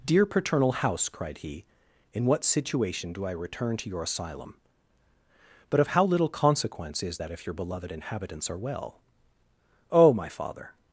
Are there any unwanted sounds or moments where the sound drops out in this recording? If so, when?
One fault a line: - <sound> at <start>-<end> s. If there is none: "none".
none